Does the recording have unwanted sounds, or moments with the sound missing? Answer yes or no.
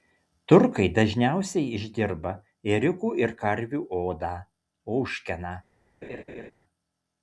yes